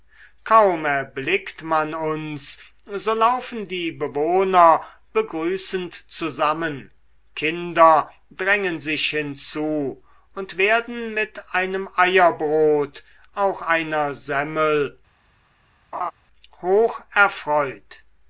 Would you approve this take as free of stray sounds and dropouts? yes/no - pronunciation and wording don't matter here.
no